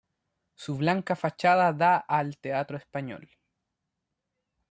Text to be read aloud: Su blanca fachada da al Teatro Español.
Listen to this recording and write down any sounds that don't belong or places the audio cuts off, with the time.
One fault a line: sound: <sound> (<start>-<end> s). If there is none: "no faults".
no faults